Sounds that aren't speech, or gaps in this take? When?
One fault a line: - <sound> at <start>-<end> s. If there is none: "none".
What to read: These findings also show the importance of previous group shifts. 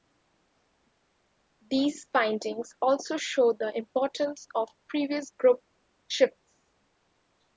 none